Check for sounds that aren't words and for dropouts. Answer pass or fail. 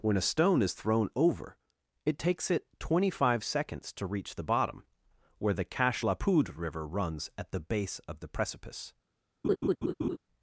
fail